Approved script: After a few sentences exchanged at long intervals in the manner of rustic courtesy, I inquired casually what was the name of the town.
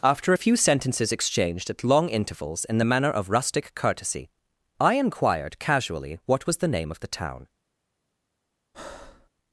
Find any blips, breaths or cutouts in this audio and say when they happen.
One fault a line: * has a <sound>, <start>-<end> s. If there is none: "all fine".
* has a breath, 8.7-9.3 s